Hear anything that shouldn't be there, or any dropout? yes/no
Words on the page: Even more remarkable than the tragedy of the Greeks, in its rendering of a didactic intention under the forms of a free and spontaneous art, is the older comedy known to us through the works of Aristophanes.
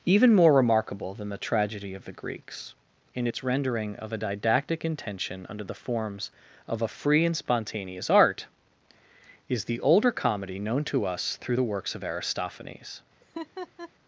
yes